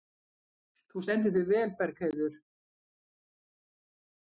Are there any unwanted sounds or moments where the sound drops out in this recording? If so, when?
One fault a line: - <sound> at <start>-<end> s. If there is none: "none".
none